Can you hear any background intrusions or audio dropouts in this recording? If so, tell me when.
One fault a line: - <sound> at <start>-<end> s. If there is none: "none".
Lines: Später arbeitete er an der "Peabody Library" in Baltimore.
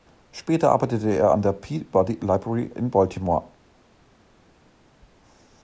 none